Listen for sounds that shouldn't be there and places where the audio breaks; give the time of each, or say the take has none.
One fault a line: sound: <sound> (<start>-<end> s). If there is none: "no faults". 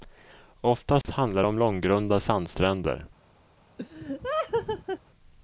sound: dropout (1.0-1.0 s)
sound: laugh (3.8-5.0 s)